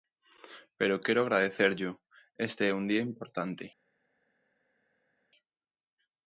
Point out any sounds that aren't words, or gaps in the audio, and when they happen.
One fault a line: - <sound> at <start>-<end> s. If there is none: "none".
none